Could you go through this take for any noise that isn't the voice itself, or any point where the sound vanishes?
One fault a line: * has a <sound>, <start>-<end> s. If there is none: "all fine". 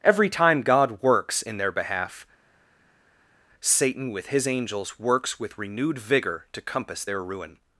all fine